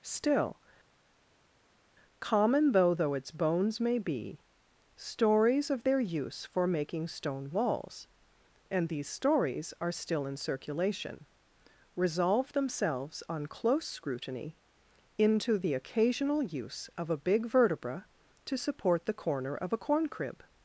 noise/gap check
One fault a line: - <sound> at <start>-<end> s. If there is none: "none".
none